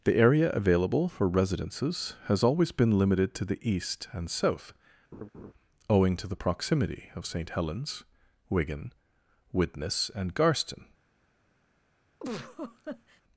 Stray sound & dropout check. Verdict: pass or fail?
fail